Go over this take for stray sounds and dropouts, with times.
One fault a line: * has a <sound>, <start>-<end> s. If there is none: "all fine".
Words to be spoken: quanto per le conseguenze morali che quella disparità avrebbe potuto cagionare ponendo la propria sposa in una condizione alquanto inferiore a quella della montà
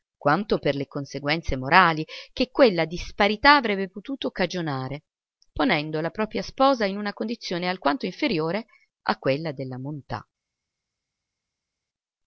all fine